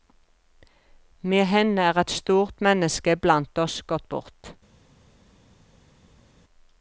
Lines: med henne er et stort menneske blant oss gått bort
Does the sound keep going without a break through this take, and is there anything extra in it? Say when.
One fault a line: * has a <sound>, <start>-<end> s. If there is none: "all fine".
all fine